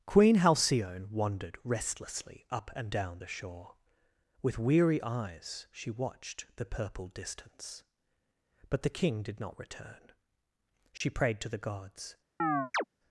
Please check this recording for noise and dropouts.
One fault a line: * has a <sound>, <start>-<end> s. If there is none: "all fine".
* has a dropout, 11.0-11.0 s
* has a chirp, 12.4-12.8 s